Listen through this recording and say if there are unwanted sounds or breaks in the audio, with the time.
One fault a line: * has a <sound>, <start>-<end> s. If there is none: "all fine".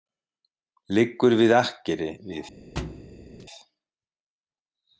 * has a thud, 2.8-3.5 s